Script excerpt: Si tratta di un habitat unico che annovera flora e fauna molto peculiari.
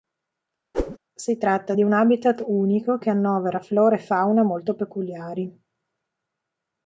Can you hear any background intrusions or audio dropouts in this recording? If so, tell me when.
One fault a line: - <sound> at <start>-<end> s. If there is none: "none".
- whoosh at 0.7-1.0 s